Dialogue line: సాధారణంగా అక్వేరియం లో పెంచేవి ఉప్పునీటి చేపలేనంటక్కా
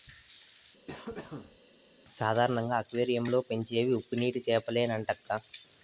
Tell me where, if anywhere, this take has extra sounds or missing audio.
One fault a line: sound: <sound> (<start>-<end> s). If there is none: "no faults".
sound: cough (0.9-1.6 s)